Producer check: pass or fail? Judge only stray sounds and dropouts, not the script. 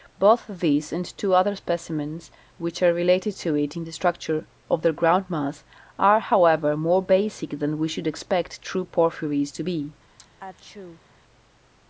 fail